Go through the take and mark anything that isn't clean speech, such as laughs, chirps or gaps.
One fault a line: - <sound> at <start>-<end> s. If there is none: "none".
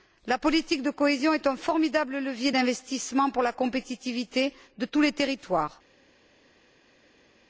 none